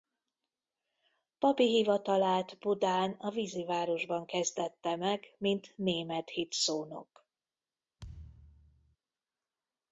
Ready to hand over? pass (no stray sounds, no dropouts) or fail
fail